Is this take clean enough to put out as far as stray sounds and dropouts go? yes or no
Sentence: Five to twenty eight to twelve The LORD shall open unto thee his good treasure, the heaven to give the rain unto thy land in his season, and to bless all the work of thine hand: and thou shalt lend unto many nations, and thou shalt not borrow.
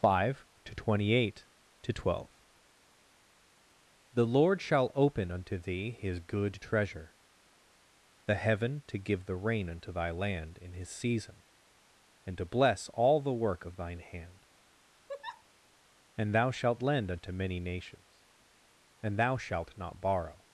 no